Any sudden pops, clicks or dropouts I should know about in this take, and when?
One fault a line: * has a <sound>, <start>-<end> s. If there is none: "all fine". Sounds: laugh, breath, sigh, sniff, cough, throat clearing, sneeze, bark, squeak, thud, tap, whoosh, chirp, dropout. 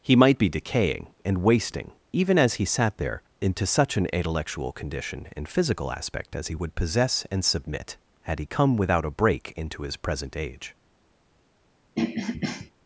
* has a throat clearing, 11.9-12.7 s